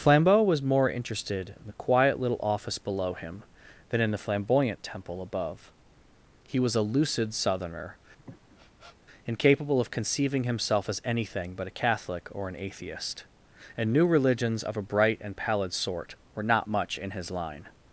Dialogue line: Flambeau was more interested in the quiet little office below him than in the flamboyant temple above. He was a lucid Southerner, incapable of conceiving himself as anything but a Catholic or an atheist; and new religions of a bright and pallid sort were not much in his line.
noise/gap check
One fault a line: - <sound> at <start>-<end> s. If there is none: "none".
- sniff at 8.2-9.0 s